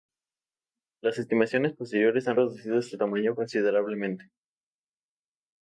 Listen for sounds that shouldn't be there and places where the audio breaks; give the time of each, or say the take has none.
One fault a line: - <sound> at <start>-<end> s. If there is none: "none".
none